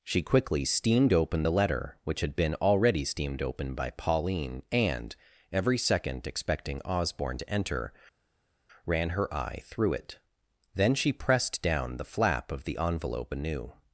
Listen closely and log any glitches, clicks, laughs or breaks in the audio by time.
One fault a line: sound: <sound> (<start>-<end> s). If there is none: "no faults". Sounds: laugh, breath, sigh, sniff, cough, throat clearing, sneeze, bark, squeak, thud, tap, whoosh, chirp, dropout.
no faults